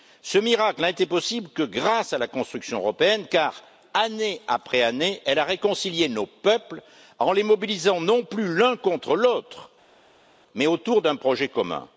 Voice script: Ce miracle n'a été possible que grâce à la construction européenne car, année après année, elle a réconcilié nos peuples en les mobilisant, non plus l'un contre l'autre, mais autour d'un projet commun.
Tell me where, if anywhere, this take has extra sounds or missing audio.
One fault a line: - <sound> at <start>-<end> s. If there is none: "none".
none